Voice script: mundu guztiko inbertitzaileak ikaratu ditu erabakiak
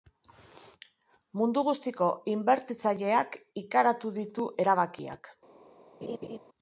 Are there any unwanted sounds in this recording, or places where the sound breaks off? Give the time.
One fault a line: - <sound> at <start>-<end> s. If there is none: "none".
- laugh at 6.0-6.4 s